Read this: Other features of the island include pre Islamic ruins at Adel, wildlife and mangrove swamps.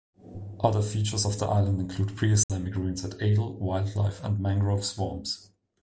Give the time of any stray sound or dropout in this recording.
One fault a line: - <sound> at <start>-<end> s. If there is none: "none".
- dropout at 2.4-2.5 s